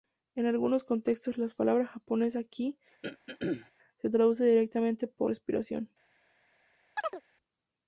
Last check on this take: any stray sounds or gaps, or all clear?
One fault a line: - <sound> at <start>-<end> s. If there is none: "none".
- throat clearing at 3.0-3.7 s
- chirp at 7.0-7.2 s